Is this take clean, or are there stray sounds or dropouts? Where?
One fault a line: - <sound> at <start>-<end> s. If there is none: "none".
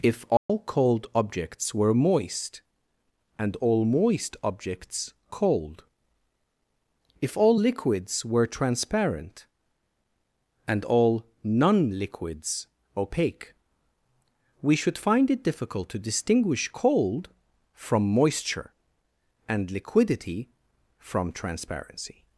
- dropout at 0.4-0.5 s